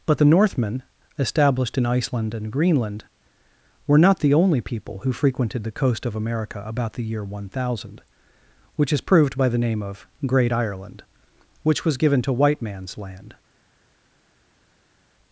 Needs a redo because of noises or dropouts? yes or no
no